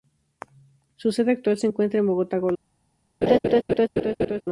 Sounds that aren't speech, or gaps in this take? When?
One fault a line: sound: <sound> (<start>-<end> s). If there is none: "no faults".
sound: laugh (3.2-4.4 s)